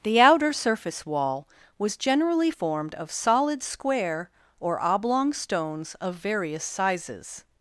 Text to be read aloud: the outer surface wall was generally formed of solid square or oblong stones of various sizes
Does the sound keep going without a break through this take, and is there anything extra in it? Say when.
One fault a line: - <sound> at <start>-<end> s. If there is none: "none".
none